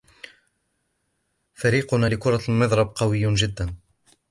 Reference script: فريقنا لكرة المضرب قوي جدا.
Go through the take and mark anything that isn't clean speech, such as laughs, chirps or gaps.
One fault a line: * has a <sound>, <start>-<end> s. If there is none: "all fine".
all fine